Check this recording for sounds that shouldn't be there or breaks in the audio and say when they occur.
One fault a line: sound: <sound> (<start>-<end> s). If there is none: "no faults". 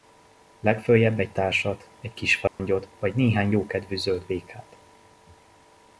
sound: dropout (2.5-2.6 s)